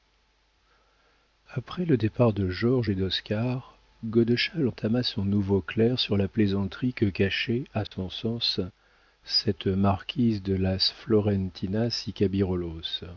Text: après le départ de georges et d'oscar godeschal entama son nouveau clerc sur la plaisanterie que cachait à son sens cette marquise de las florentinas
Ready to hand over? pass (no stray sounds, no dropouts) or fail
fail